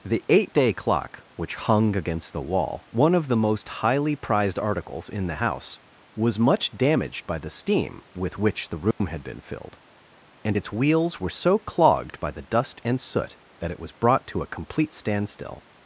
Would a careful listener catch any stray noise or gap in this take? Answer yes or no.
yes